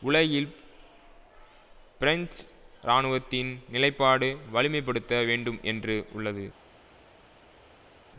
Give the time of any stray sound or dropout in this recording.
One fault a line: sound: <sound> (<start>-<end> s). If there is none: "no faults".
no faults